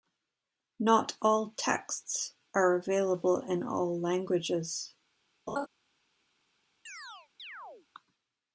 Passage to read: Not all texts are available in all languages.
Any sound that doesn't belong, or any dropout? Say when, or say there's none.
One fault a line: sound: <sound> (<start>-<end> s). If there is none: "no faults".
sound: laugh (5.5-5.7 s)
sound: chirp (6.9-7.9 s)